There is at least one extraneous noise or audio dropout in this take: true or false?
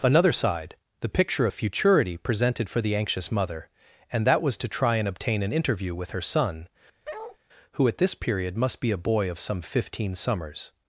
true